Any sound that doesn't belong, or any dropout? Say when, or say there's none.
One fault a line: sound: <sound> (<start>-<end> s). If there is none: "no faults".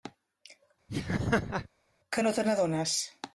sound: laugh (0.9-1.7 s)